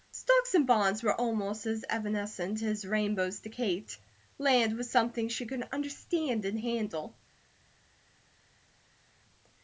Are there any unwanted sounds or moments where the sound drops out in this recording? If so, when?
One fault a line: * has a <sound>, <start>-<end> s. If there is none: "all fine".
all fine